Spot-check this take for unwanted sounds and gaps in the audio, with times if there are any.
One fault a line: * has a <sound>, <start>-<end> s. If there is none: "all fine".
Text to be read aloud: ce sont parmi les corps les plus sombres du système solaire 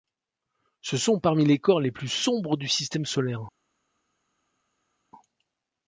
all fine